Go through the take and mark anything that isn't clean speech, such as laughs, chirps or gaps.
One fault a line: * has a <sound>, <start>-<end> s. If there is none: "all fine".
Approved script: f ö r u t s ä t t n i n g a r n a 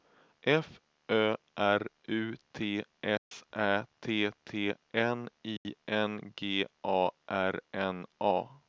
* has a dropout, 3.2-3.3 s
* has a dropout, 5.6-5.7 s